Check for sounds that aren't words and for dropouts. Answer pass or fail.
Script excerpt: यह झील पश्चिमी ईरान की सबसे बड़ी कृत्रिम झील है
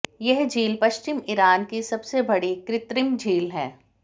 pass